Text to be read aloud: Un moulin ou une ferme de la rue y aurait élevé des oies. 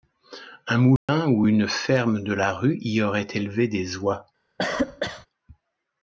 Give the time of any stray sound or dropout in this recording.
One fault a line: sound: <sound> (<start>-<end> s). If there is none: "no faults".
sound: dropout (1.0-1.1 s)
sound: cough (4.6-5.3 s)